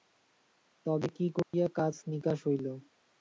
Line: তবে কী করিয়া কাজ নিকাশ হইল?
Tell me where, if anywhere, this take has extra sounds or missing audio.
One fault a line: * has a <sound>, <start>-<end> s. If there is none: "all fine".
* has a dropout, 1.4-1.5 s